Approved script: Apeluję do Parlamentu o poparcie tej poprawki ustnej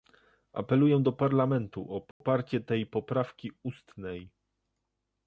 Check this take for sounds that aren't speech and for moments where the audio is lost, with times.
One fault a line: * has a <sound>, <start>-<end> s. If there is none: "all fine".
* has a dropout, 2.1-2.2 s